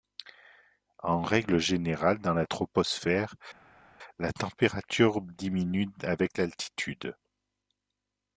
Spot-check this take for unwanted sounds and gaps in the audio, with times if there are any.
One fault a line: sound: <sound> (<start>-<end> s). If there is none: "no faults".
no faults